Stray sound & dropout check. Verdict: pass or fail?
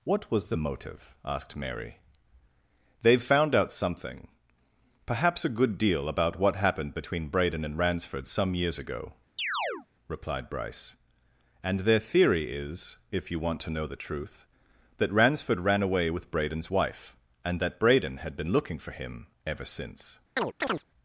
fail